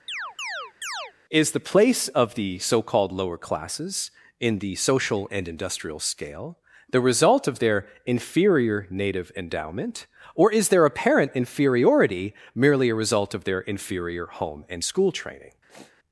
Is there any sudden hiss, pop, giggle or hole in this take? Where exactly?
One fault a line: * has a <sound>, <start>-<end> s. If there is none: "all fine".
* has a chirp, 0.1-1.1 s
* has a sniff, 15.7-16.0 s